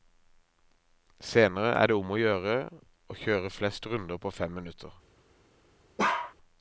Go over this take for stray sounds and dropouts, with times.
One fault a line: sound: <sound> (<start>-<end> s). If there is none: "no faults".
sound: bark (6.0-6.3 s)